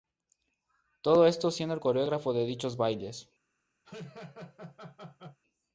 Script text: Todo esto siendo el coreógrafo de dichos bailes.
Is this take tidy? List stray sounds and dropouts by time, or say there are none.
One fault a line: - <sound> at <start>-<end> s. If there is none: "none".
- laugh at 3.8-5.4 s